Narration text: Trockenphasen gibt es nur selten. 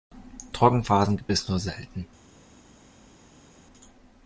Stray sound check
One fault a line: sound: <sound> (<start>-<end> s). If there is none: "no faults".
no faults